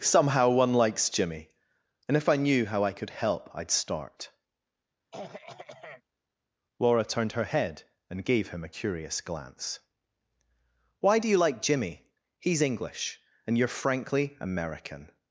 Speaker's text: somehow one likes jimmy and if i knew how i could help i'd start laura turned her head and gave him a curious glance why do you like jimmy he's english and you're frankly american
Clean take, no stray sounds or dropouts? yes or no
no